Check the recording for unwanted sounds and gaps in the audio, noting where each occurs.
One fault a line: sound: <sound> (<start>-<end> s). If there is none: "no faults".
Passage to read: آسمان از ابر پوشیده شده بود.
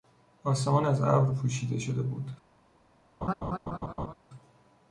sound: laugh (3.2-4.1 s)